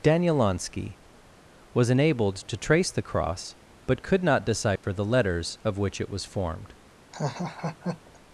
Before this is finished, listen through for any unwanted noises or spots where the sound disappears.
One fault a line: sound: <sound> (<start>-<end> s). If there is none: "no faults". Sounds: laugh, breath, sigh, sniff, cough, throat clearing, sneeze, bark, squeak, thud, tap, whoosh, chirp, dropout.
sound: dropout (4.8-4.8 s)
sound: laugh (7.1-8.2 s)